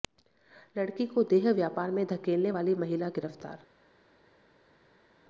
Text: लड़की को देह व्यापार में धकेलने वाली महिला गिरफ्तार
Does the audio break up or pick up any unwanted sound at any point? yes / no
no